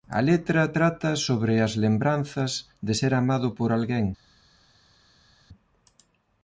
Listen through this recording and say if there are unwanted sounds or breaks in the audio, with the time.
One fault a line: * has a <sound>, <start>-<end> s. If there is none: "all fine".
all fine